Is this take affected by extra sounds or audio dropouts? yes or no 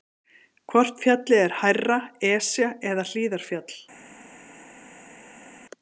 no